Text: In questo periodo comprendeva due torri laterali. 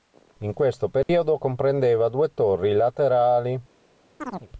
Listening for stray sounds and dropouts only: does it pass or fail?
fail